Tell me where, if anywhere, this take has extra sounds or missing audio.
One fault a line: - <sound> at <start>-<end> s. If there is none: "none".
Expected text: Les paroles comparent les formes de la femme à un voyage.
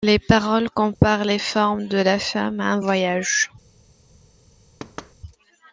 - dropout at 0.9-1.0 s
- thud at 4.8-5.1 s